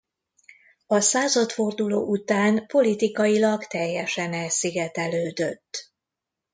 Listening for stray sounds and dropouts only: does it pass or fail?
pass